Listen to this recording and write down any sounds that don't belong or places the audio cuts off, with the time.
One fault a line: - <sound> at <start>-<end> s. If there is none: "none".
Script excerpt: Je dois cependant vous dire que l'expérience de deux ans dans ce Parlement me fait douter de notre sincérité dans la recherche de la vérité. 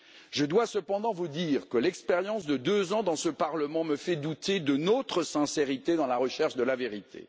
none